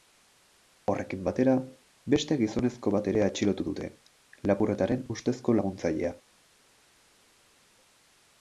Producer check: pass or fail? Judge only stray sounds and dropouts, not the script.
pass